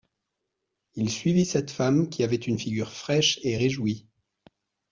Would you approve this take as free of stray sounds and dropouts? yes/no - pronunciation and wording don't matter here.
yes